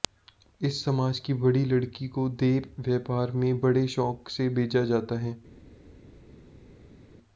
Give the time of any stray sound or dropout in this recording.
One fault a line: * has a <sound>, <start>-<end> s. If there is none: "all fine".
all fine